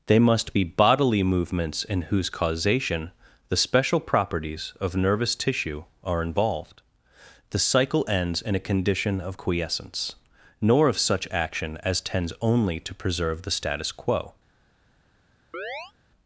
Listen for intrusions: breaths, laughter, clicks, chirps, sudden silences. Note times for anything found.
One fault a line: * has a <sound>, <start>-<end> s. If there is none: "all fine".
* has a chirp, 15.5-15.9 s